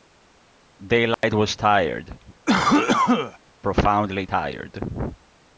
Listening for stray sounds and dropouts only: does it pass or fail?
fail